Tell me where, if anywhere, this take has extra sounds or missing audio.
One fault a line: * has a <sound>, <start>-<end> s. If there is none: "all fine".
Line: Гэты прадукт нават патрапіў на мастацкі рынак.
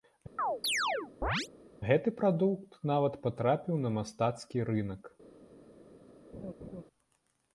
* has a chirp, 0.4-1.5 s
* has a laugh, 6.3-6.8 s